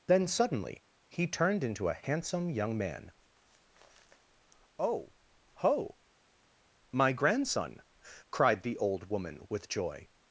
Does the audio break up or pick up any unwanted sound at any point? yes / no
no